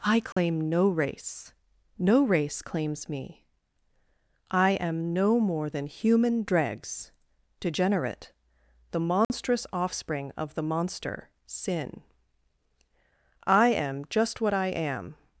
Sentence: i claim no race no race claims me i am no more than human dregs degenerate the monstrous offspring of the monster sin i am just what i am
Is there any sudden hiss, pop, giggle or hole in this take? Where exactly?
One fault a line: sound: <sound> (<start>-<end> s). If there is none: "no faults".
sound: dropout (0.3-0.4 s)
sound: dropout (9.2-9.3 s)